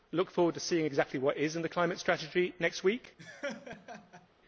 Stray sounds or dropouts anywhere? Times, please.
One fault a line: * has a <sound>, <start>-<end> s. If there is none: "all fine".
* has a laugh, 3.2-4.3 s